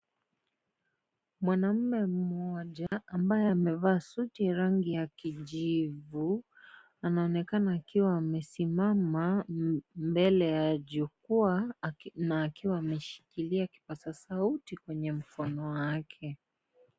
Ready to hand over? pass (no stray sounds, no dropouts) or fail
fail